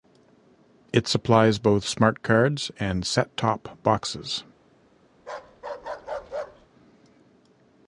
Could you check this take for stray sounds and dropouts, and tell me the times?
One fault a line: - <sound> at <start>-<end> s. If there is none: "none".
- bark at 5.2-6.7 s